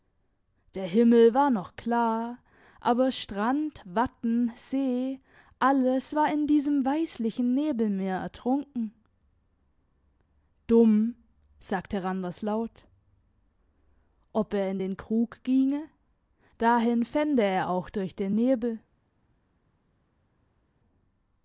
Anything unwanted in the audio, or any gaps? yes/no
no